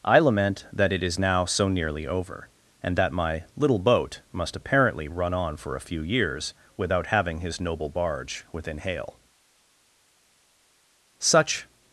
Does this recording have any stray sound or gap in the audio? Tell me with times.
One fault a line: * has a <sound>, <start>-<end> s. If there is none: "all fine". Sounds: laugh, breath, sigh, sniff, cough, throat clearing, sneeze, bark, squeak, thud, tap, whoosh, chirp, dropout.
all fine